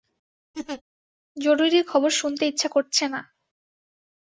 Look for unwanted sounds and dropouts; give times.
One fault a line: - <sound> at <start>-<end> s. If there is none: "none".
- laugh at 0.5-0.8 s